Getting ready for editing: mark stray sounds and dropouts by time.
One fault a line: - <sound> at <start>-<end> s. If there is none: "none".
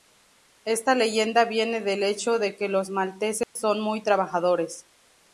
- dropout at 3.4-3.6 s